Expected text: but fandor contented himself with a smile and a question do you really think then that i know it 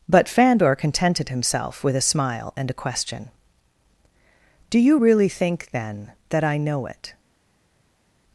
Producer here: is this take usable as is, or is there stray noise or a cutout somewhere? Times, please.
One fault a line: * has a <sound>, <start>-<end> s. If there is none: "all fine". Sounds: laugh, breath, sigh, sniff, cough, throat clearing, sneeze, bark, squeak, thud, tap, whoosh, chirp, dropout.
all fine